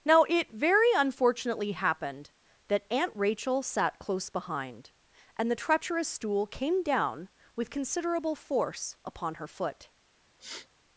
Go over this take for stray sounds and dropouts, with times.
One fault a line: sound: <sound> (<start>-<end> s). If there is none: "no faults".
sound: sniff (10.4-10.7 s)